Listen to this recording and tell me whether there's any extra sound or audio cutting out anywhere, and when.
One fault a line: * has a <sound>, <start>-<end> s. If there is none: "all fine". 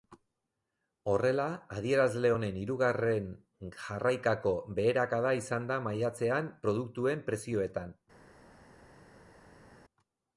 all fine